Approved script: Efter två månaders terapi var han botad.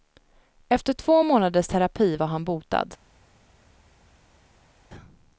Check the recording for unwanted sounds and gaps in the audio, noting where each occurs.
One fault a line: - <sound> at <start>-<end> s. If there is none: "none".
none